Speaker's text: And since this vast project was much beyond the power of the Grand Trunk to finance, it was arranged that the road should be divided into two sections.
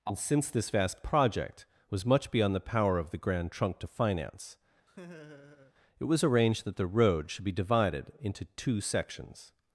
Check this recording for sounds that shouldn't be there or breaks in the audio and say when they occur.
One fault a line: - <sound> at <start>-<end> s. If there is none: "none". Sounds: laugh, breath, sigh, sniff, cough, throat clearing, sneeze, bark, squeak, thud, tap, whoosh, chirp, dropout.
- laugh at 4.9-5.7 s